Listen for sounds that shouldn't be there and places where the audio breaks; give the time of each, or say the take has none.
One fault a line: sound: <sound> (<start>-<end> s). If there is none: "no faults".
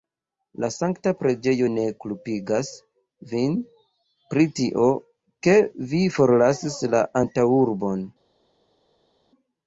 no faults